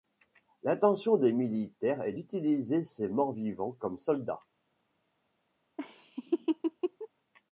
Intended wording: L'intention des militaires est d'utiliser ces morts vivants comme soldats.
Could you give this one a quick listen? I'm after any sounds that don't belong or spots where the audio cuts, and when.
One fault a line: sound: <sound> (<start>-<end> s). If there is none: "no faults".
sound: laugh (5.8-7.1 s)